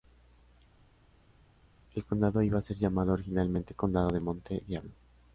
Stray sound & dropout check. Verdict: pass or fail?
pass